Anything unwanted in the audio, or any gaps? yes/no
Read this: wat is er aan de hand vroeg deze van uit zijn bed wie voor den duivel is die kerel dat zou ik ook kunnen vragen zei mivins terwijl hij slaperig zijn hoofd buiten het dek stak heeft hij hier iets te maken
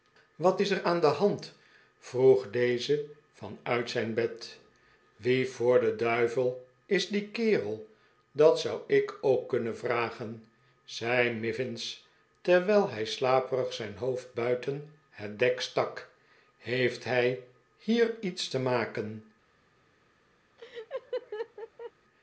yes